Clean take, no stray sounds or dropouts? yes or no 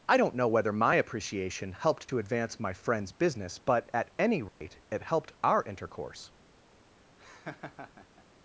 no